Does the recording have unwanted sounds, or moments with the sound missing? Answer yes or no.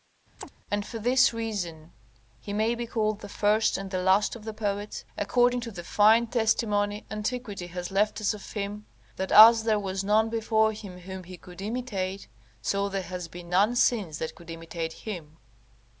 yes